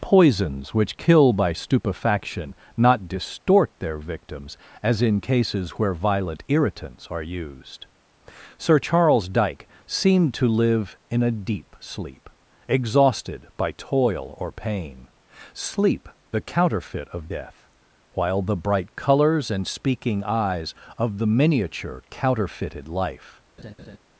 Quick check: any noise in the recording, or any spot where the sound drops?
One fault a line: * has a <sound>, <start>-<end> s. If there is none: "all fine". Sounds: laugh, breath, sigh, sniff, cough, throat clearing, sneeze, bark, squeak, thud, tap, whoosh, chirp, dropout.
* has a laugh, 23.6-24.0 s